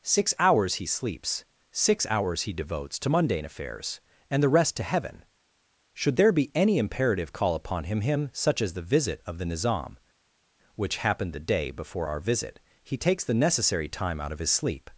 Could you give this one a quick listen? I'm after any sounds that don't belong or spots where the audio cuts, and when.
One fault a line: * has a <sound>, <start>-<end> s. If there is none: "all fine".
all fine